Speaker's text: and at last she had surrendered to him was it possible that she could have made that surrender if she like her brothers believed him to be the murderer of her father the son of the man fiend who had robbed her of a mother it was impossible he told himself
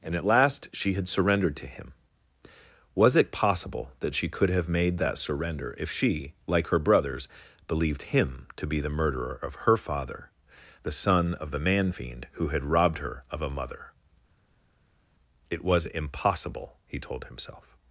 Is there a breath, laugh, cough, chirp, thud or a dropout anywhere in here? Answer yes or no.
no